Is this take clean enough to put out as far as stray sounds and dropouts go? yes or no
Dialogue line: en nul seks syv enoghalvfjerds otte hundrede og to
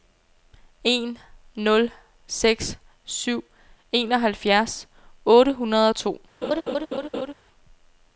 no